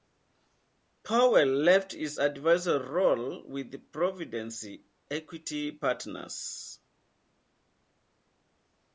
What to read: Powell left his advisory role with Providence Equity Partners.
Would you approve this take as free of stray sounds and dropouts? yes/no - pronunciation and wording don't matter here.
yes